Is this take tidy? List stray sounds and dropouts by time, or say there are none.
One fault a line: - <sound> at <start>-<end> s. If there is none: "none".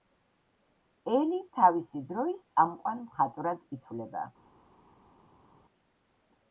none